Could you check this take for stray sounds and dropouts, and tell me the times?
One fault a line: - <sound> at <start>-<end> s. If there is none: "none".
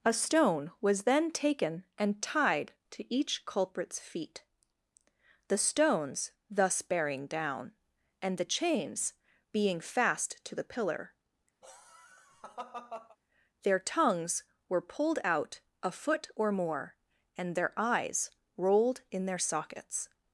- laugh at 11.6-13.2 s